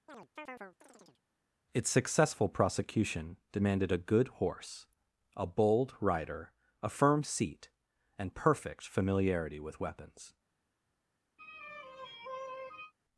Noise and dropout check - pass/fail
fail